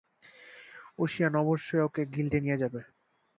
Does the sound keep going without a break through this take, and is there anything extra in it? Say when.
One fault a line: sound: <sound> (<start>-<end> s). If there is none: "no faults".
no faults